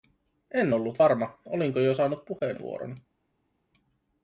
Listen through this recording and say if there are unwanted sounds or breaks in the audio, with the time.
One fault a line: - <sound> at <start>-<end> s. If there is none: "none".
none